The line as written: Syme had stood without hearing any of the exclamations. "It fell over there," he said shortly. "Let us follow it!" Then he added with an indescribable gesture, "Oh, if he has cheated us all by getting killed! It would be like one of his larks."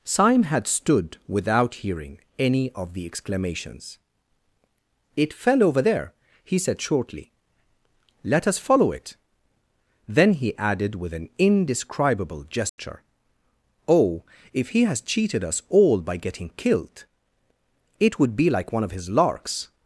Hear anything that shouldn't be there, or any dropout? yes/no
yes